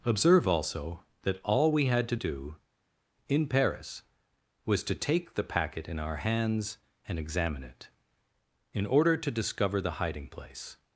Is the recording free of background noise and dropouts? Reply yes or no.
yes